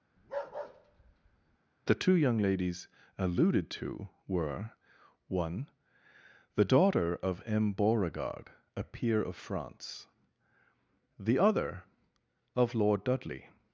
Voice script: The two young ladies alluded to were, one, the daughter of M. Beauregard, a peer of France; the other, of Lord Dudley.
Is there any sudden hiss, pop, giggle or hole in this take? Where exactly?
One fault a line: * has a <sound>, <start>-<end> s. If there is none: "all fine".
* has a bark, 0.2-1.6 s